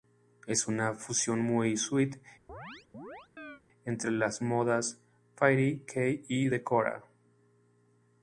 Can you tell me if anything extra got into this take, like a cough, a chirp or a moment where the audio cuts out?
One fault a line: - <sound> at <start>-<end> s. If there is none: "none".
- chirp at 2.5-3.6 s